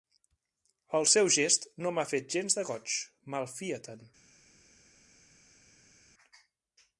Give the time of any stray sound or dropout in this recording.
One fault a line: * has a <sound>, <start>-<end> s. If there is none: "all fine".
all fine